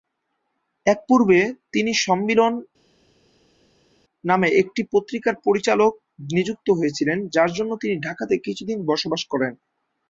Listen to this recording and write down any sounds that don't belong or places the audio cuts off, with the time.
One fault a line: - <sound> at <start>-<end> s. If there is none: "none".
none